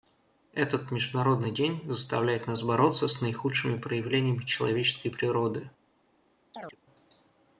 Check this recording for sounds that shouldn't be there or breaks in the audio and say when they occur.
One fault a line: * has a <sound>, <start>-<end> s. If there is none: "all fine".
* has a chirp, 6.5-6.8 s